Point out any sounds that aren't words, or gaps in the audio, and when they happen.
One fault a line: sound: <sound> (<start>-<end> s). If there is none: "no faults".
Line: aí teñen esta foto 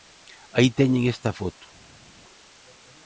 no faults